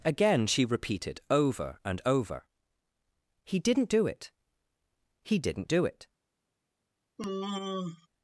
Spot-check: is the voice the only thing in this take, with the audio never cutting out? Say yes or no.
no